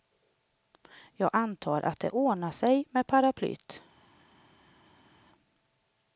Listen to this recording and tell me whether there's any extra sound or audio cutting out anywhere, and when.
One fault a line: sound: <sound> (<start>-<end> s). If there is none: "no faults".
no faults